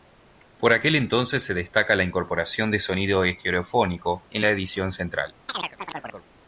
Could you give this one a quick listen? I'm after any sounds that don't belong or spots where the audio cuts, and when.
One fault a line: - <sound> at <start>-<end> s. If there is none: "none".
- chirp at 5.5-6.3 s